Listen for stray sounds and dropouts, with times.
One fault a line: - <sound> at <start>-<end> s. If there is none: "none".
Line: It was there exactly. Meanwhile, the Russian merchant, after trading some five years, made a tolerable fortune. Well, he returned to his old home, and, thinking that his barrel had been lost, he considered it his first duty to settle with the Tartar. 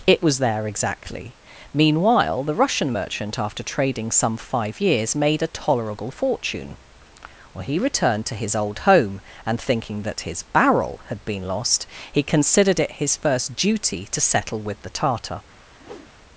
- whoosh at 15.8-16.1 s